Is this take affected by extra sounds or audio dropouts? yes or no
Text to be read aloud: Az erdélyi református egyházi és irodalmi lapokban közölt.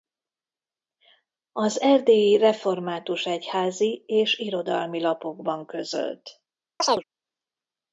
yes